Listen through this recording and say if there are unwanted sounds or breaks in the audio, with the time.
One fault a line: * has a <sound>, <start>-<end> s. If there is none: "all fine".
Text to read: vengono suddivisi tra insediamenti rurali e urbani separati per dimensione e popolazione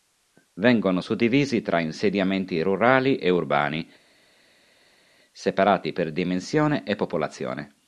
all fine